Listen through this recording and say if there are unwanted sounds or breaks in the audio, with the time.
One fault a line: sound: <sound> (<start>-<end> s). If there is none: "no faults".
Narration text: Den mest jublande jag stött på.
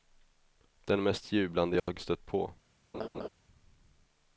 sound: dropout (1.8-1.9 s)
sound: laugh (2.9-3.3 s)